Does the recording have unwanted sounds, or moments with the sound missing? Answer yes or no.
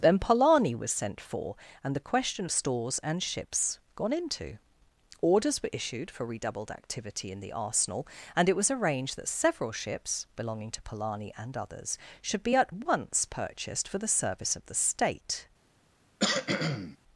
yes